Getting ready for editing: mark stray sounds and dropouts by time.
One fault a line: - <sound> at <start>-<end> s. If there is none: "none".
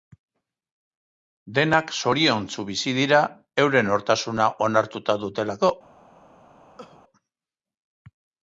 - cough at 6.8-7.0 s